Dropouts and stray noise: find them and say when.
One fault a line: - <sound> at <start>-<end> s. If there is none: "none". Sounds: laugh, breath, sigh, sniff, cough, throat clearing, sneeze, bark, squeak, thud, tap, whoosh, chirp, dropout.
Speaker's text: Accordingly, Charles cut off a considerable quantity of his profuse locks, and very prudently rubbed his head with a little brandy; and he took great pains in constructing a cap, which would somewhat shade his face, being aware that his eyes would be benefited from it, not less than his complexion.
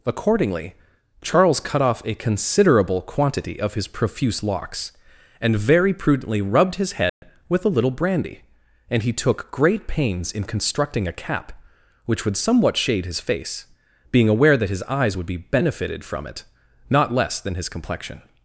- dropout at 7.1-7.2 s